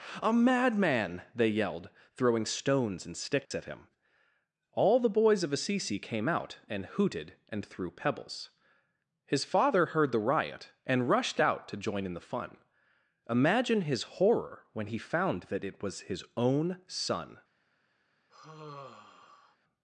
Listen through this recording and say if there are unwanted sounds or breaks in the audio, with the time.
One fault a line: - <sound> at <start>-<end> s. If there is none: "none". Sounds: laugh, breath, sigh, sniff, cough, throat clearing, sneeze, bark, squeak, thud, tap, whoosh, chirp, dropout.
- dropout at 3.4-3.5 s
- sigh at 18.3-19.6 s